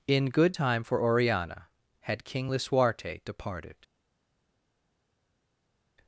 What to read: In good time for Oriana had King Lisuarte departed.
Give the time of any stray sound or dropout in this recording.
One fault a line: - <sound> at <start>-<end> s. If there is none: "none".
none